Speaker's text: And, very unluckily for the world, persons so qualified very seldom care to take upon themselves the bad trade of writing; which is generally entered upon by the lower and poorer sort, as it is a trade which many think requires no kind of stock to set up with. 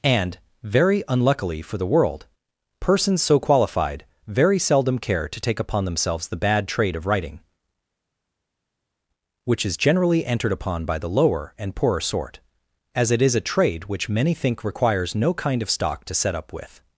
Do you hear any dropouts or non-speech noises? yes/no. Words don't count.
no